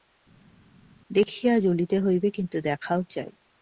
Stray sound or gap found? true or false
false